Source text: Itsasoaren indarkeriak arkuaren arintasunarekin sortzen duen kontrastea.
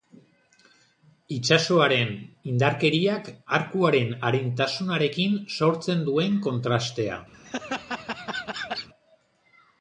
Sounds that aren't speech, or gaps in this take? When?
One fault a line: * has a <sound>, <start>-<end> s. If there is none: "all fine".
* has a laugh, 7.3-8.9 s